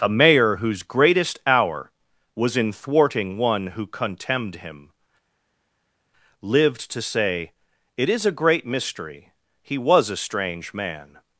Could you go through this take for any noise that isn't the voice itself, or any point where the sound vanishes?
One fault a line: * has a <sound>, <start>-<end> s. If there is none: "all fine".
all fine